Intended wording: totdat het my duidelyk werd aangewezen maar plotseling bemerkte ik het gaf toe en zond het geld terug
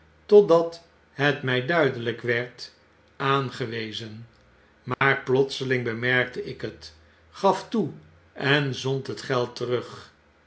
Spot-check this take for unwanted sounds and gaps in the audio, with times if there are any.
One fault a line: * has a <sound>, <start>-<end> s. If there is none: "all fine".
* has a dropout, 4.9-5.0 s